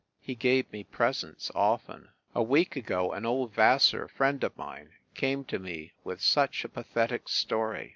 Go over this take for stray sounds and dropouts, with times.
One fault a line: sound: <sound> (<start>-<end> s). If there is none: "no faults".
no faults